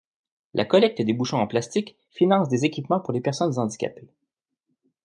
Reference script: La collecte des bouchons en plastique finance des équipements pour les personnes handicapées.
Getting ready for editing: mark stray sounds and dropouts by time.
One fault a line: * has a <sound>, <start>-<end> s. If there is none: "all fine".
all fine